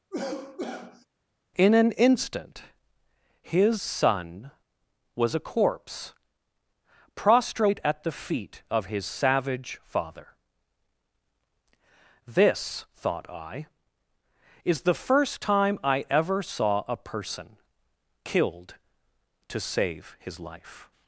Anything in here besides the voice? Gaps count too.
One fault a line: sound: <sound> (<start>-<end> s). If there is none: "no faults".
sound: cough (0.1-1.1 s)